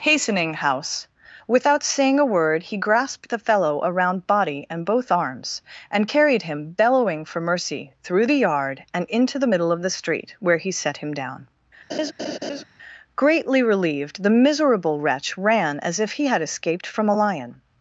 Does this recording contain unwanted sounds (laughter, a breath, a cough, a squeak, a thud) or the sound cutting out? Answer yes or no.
yes